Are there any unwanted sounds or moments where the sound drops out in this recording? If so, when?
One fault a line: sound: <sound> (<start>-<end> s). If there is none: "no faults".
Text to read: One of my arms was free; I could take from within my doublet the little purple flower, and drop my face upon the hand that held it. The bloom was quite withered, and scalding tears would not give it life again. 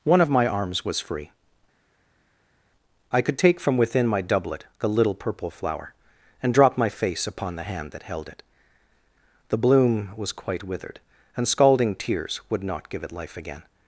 no faults